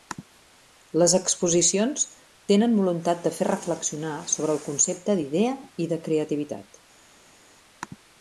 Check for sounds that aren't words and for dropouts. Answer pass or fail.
pass